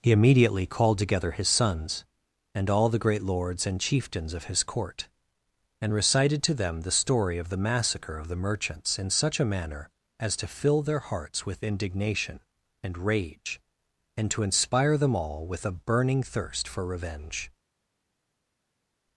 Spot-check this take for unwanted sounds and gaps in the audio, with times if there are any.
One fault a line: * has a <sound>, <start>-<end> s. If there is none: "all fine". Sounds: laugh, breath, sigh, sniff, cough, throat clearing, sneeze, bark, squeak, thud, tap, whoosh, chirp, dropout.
all fine